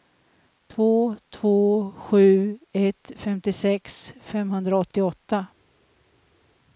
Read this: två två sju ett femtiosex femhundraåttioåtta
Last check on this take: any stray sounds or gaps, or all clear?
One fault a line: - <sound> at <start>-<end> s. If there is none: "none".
none